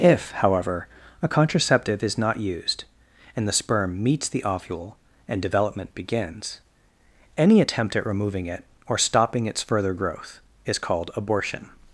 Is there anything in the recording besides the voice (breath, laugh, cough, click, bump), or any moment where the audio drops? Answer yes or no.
no